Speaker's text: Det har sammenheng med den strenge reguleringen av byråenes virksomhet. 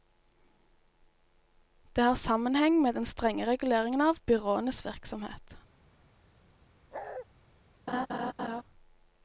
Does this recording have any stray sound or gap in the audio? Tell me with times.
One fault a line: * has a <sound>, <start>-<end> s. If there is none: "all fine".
* has a bark, 6.9-7.3 s
* has a laugh, 7.9-8.6 s